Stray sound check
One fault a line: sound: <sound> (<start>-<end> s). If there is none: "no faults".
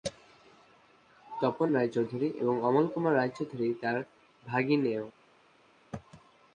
no faults